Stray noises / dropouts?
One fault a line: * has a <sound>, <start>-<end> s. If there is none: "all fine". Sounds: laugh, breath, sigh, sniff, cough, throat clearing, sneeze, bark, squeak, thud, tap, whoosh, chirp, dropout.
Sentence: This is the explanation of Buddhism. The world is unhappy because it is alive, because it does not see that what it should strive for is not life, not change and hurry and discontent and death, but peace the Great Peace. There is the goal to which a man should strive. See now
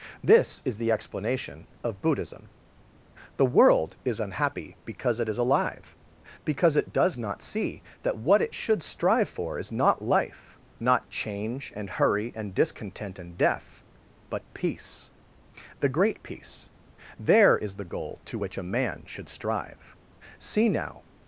all fine